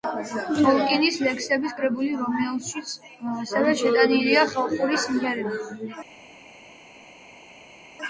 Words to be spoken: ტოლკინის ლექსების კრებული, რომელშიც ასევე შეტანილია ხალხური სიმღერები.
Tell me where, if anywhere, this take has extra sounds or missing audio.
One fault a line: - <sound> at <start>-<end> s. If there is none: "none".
none